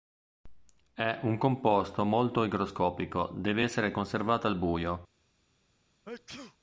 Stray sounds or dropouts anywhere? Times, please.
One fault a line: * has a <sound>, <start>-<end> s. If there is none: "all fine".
* has a sneeze, 6.1-6.6 s